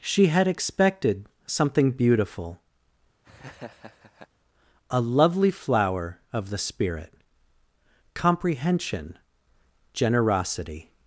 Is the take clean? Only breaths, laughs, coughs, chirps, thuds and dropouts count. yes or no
no